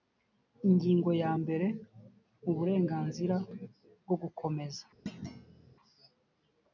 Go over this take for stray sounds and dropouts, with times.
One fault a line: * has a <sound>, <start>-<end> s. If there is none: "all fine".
* has a thud, 5.1-5.8 s